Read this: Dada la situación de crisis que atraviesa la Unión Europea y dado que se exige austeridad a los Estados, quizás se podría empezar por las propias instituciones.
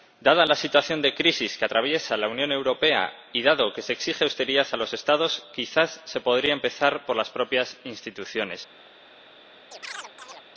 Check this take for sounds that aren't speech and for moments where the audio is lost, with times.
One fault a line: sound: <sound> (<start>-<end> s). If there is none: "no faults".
sound: chirp (9.7-10.5 s)